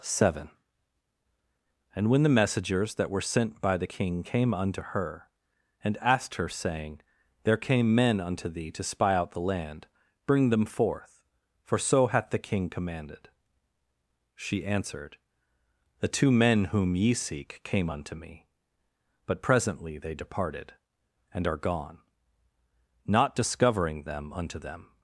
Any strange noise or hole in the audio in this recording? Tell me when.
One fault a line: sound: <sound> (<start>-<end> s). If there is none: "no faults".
no faults